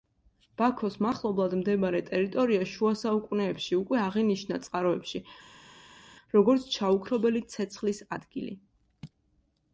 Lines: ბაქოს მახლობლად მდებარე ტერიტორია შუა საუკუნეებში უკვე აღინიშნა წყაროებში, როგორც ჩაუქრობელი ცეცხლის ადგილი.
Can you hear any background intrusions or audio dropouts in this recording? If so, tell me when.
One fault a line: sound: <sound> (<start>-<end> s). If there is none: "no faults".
no faults